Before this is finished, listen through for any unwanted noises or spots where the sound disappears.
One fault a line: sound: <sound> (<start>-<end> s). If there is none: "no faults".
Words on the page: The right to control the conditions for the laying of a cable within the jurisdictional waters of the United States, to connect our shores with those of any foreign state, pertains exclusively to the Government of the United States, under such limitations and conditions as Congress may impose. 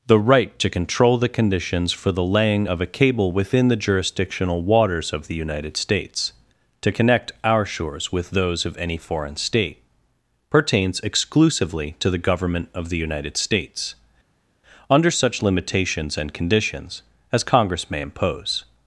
no faults